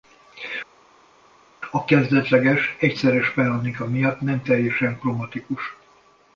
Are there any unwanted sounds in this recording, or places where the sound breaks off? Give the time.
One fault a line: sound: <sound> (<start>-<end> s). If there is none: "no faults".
no faults